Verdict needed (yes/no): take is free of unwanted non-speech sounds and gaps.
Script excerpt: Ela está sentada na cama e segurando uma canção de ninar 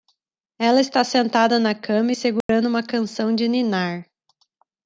no